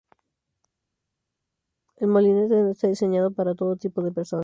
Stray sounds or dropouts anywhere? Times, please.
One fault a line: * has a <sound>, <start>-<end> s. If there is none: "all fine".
all fine